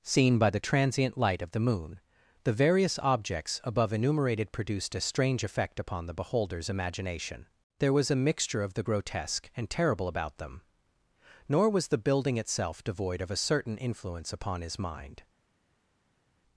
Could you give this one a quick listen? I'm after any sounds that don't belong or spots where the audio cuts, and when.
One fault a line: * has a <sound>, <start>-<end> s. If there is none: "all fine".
all fine